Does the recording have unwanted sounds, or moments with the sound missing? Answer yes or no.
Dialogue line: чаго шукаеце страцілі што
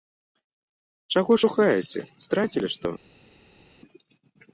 no